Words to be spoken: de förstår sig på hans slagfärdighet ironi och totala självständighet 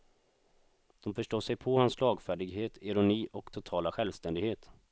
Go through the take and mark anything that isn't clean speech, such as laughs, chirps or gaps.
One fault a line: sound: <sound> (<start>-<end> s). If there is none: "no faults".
no faults